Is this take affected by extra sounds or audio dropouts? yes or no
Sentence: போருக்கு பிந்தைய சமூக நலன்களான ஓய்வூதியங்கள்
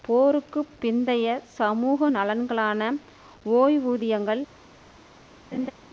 yes